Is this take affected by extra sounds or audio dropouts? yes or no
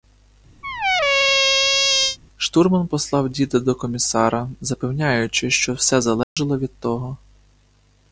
yes